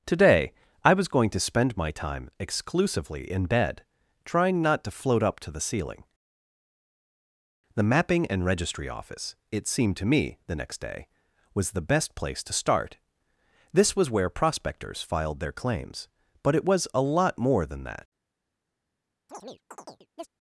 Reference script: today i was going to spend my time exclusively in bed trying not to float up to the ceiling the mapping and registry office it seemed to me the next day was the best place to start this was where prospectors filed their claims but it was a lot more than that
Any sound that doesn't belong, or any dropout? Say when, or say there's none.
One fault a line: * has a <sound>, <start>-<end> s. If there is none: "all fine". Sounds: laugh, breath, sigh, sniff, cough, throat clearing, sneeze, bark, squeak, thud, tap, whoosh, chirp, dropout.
* has a chirp, 19.3-20.3 s